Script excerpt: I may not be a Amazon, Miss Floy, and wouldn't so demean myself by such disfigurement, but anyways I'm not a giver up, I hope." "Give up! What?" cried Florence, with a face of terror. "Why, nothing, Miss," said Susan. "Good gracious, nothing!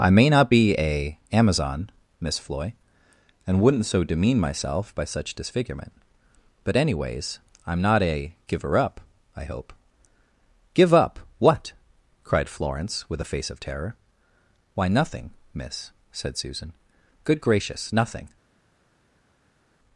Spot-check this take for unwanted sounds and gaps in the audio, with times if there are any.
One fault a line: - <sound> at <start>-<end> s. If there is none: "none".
none